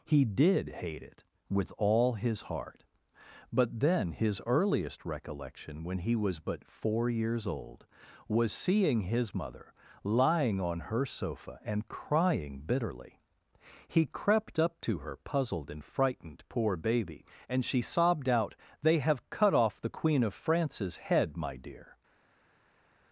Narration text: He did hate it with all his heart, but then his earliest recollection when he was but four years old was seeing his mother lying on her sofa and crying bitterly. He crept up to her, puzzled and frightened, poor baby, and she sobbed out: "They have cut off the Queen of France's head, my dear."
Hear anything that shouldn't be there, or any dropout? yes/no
no